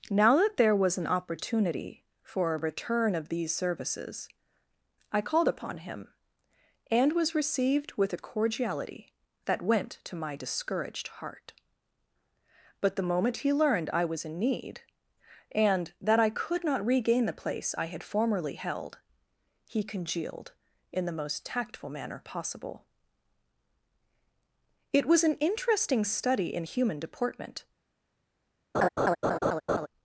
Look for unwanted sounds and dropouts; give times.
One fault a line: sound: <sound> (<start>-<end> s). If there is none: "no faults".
sound: laugh (28.7-29.9 s)